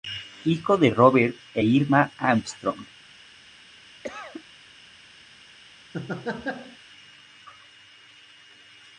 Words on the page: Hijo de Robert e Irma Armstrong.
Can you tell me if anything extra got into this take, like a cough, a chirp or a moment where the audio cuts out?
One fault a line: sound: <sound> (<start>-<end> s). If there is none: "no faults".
sound: cough (4.0-4.4 s)
sound: laugh (5.9-6.8 s)